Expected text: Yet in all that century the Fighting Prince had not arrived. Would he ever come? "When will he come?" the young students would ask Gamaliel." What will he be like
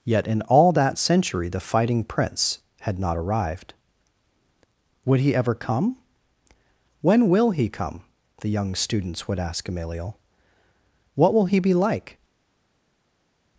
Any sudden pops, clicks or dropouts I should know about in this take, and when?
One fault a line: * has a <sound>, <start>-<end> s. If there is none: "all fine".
all fine